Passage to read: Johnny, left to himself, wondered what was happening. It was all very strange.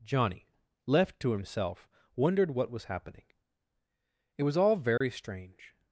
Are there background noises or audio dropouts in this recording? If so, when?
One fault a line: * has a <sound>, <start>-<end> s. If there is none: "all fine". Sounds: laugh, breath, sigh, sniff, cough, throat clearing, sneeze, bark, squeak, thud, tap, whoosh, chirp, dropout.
* has a dropout, 5.0-5.0 s